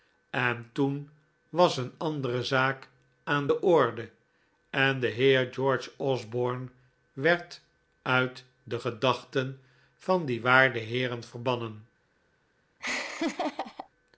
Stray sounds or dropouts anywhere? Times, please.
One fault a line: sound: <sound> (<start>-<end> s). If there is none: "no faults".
sound: laugh (12.8-13.9 s)